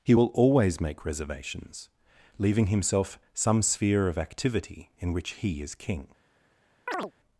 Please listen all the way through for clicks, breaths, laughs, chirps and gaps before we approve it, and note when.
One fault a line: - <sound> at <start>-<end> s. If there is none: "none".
- chirp at 6.9-7.1 s